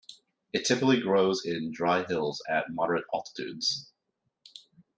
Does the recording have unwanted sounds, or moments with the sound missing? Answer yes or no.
no